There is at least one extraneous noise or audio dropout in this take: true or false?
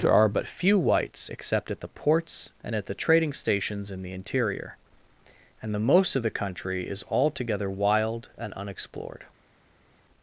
false